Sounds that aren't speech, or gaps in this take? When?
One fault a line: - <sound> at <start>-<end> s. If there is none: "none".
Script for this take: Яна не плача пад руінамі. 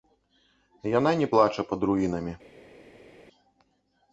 none